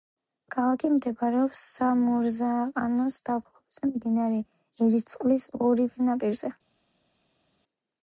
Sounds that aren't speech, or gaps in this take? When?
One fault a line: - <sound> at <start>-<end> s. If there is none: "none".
none